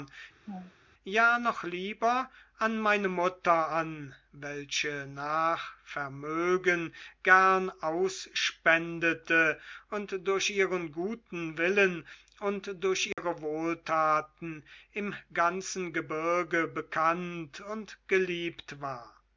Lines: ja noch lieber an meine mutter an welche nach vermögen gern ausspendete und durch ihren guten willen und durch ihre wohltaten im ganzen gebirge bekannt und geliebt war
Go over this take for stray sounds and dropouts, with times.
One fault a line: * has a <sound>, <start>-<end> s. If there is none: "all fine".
* has a laugh, 0.5-0.7 s
* has a dropout, 13.1-13.2 s